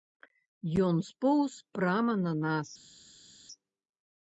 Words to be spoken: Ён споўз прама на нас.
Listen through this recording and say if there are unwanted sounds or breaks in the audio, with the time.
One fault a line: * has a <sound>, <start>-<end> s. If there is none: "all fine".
all fine